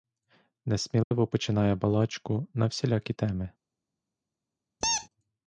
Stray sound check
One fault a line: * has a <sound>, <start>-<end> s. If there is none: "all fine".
* has a dropout, 1.0-1.1 s
* has a squeak, 4.8-5.1 s